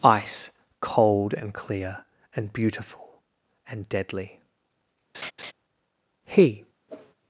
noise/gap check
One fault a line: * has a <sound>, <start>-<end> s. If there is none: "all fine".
* has a laugh, 5.1-5.5 s
* has a whoosh, 6.9-7.2 s